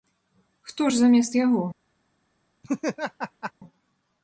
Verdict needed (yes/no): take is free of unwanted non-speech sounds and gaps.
no